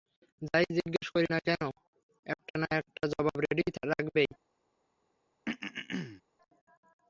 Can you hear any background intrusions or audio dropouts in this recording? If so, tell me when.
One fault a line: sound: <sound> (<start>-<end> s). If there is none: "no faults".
sound: throat clearing (5.4-6.2 s)